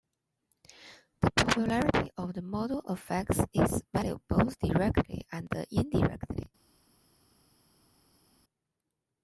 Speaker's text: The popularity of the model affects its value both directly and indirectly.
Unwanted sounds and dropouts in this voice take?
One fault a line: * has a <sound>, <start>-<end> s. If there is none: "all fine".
all fine